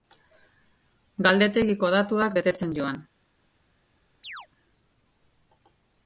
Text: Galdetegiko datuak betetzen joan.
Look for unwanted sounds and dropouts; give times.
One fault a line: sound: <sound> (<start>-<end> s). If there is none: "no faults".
sound: chirp (4.2-4.5 s)